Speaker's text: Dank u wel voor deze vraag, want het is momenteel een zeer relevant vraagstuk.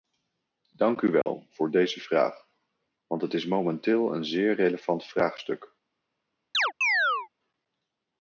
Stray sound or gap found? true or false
true